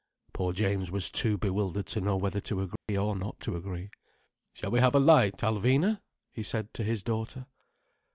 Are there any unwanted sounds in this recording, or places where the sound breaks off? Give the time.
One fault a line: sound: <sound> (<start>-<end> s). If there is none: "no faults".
sound: dropout (2.8-2.9 s)